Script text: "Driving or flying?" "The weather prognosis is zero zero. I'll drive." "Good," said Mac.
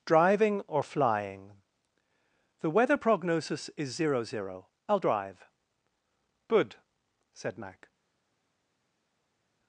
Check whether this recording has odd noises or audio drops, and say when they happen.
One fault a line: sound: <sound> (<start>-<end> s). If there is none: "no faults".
no faults